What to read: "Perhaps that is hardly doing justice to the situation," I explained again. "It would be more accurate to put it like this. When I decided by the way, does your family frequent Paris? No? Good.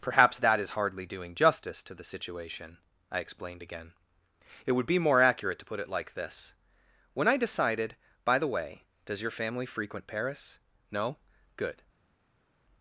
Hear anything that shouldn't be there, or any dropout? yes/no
no